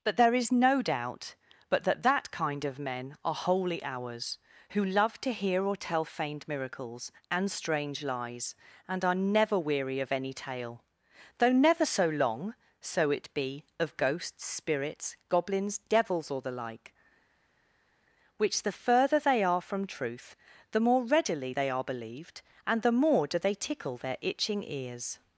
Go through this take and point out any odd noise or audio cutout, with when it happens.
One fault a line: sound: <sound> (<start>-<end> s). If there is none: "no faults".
no faults